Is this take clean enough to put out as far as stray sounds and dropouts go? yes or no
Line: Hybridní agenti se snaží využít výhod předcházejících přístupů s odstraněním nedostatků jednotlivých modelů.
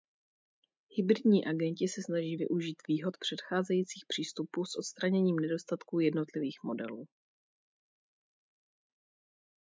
yes